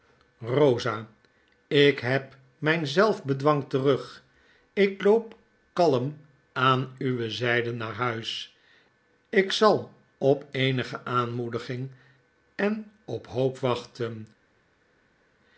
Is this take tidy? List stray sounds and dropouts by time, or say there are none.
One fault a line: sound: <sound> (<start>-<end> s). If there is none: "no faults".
no faults